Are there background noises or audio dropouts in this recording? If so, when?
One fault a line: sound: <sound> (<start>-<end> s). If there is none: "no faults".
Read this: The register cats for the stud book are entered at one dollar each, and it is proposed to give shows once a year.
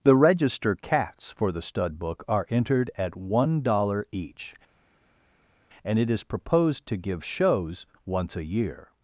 no faults